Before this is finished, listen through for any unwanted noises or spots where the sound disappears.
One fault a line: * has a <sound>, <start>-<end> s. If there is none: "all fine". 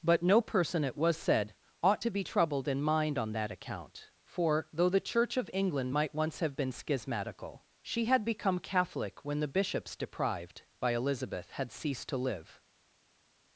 all fine